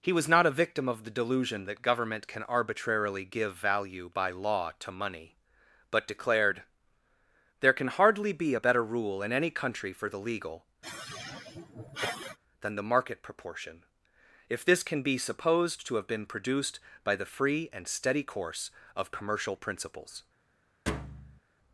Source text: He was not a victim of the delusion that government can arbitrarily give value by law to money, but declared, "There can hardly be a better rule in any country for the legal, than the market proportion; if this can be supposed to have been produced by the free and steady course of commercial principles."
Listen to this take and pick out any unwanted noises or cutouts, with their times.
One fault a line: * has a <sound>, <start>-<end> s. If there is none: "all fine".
* has a sigh, 10.8-12.4 s
* has a thud, 20.9-21.4 s